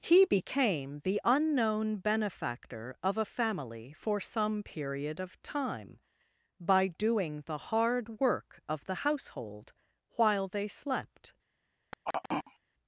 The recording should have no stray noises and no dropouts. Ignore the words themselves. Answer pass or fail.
fail